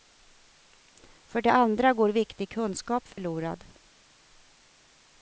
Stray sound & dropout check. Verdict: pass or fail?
fail